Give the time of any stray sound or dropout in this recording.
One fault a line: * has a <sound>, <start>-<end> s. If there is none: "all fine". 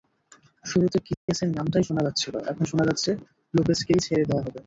* has a dropout, 1.1-1.3 s